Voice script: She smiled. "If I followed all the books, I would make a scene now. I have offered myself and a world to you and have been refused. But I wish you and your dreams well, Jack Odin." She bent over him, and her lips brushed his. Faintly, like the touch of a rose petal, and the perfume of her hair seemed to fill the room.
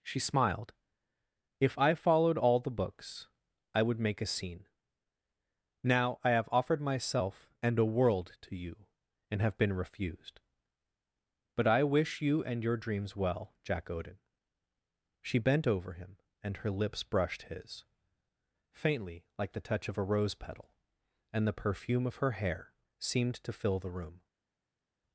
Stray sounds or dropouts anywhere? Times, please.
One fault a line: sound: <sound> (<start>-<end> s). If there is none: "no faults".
no faults